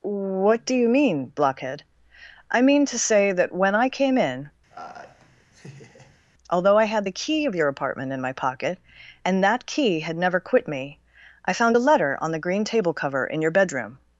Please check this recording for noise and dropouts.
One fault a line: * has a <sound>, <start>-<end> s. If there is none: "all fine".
* has a laugh, 4.7-6.2 s